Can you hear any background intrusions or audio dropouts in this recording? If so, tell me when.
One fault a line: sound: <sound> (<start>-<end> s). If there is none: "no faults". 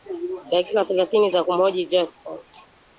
no faults